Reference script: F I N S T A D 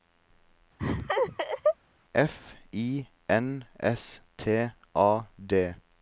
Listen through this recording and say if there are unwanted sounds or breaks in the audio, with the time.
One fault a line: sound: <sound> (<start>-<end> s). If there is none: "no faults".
sound: laugh (0.8-1.8 s)